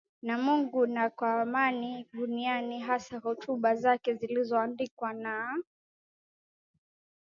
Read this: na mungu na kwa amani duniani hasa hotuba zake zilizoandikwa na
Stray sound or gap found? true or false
false